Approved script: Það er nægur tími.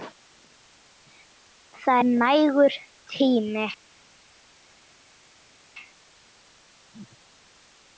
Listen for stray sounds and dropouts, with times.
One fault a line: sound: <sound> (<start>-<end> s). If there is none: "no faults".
no faults